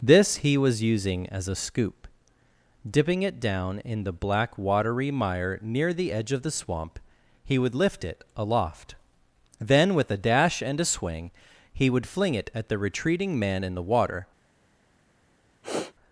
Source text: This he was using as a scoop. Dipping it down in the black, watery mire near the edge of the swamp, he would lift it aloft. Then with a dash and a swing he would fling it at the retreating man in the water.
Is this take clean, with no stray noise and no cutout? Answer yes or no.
no